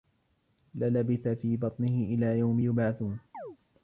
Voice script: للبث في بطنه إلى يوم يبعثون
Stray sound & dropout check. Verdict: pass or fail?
fail